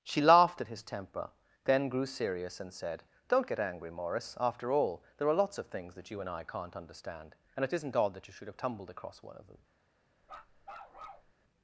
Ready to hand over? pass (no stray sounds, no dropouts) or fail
fail